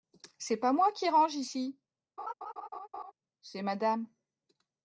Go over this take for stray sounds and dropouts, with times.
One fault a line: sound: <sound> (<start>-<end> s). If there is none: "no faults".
sound: laugh (2.2-3.1 s)